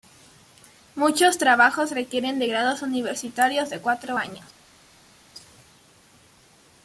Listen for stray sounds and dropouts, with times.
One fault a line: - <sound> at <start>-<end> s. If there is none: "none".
none